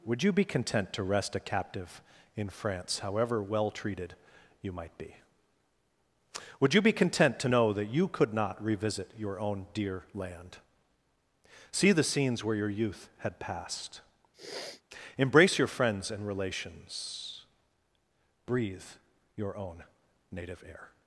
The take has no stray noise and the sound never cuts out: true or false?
false